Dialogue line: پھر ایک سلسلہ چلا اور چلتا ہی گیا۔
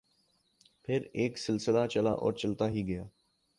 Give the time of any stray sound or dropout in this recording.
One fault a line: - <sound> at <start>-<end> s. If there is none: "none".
none